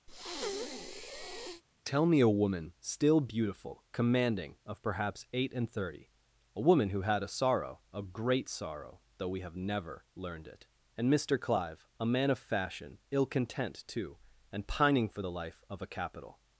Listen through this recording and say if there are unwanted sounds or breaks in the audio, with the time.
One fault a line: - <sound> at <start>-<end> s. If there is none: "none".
- breath at 0.1-1.6 s